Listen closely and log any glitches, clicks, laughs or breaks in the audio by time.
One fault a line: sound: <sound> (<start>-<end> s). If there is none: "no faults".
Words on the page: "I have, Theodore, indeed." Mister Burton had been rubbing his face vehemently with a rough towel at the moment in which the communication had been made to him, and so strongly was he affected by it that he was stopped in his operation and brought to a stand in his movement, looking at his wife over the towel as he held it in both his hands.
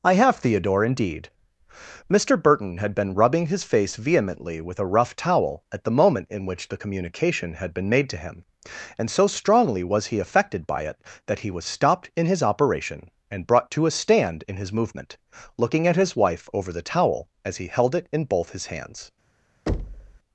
sound: thud (19.7-20.2 s)